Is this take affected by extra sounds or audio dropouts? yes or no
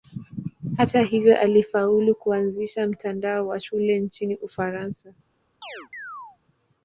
yes